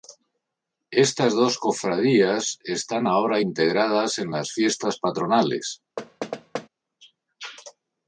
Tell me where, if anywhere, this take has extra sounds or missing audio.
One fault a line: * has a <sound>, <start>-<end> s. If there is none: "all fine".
* has a thud, 6.0-6.7 s